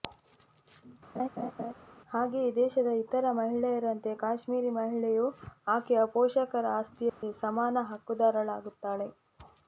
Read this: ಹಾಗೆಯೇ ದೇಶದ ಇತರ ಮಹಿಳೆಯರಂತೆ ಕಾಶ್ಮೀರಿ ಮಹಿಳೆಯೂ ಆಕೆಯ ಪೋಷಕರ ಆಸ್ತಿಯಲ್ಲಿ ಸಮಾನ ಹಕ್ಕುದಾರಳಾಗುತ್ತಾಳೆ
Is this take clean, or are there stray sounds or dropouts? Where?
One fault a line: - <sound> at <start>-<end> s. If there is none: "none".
- laugh at 1.2-1.7 s
- dropout at 7.1-7.2 s